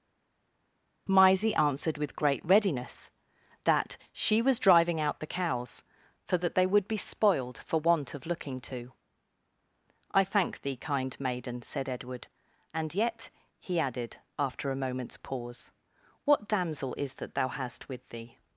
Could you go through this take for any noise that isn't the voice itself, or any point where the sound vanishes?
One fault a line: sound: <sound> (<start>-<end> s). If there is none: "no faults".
no faults